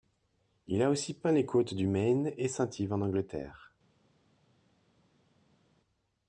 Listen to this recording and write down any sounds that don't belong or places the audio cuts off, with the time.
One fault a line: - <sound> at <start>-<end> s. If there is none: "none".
none